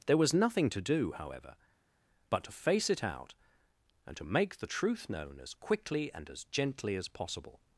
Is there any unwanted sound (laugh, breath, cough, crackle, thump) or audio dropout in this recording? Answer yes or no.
no